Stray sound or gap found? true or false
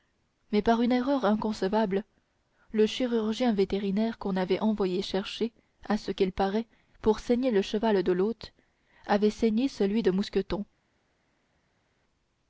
false